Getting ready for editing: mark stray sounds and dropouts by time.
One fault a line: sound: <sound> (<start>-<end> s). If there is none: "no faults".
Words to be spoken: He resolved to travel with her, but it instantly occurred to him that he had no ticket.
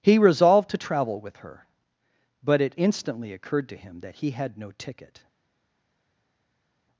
no faults